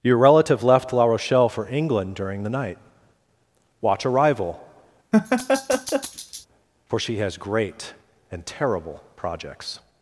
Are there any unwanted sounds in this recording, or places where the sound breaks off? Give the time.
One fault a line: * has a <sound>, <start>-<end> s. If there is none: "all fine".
* has a laugh, 5.1-6.5 s